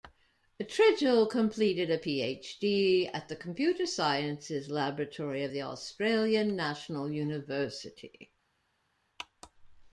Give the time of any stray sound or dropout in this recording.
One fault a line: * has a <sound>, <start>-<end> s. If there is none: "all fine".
all fine